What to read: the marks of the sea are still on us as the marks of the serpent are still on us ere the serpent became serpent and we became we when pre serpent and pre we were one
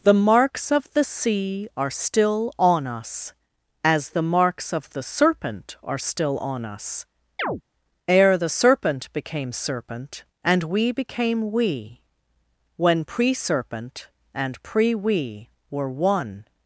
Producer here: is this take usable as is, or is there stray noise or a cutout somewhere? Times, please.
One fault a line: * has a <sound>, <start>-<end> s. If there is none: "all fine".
* has a chirp, 7.4-7.6 s